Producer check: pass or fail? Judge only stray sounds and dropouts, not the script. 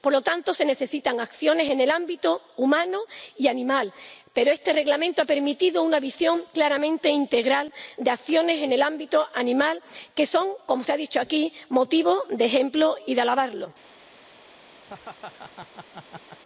fail